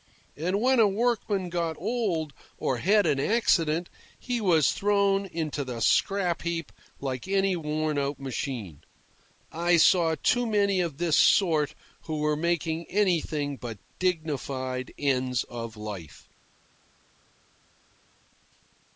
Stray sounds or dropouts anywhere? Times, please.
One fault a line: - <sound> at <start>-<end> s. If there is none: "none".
none